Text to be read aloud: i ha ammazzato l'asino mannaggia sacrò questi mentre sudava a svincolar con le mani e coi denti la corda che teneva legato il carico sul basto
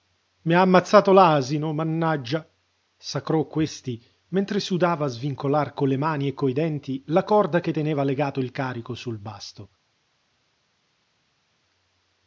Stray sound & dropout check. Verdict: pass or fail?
pass